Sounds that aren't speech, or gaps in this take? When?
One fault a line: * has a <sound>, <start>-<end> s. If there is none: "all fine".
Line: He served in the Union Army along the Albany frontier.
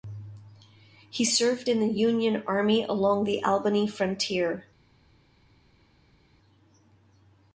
all fine